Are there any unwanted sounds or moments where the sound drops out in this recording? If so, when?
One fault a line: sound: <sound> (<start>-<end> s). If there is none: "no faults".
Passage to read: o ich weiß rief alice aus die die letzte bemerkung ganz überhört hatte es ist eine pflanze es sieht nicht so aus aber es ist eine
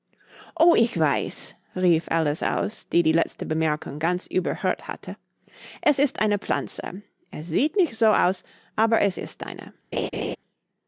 sound: laugh (9.9-10.4 s)